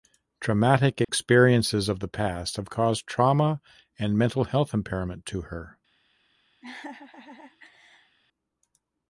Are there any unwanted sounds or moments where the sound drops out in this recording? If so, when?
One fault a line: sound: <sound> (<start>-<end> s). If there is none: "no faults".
sound: dropout (1.0-1.1 s)
sound: laugh (6.6-8.2 s)